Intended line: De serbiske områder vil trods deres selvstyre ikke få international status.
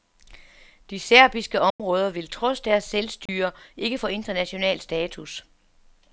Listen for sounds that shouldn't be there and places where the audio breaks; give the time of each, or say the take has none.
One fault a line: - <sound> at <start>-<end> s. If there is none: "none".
- dropout at 1.7-1.8 s
- dropout at 3.3-3.3 s